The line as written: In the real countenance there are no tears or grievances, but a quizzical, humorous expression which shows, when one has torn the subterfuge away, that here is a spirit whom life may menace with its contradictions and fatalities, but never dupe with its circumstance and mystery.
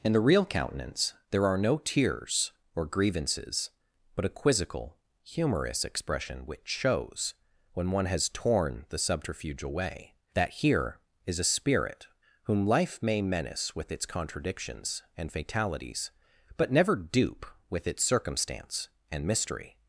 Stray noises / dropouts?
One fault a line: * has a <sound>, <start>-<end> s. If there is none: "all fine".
all fine